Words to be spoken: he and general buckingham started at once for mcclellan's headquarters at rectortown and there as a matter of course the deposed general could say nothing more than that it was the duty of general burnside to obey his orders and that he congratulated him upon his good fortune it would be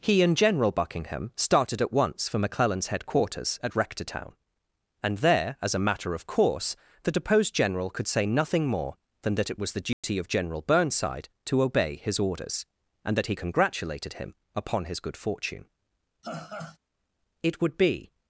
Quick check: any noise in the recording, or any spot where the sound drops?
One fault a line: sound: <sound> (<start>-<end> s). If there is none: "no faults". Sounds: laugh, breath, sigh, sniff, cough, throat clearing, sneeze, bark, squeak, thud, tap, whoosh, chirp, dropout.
sound: dropout (9.9-10.0 s)
sound: laugh (16.2-16.8 s)